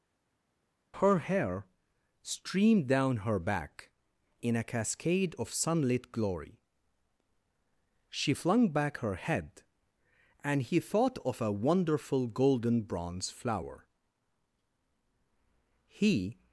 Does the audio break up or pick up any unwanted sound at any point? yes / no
no